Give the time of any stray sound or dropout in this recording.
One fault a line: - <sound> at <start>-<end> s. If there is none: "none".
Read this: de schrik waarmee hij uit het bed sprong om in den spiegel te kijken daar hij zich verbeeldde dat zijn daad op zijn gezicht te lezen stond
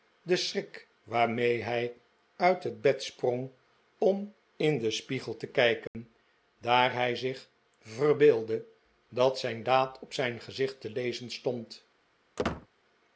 - dropout at 5.9-5.9 s
- squeak at 12.4-12.7 s